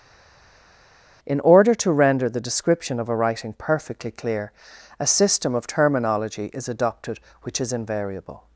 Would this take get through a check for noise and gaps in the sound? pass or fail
pass